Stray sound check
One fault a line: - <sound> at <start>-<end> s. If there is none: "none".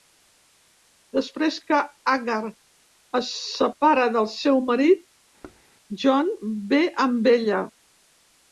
- thud at 5.4-5.6 s